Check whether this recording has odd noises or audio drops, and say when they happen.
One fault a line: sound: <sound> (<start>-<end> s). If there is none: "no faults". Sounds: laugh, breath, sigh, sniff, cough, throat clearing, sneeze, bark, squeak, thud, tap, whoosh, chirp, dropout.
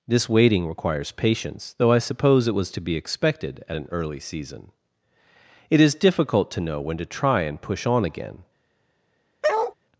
sound: bark (9.4-9.7 s)